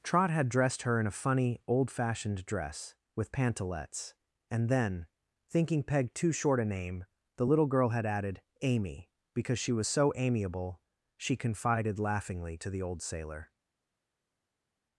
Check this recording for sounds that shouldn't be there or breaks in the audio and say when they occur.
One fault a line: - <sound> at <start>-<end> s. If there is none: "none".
none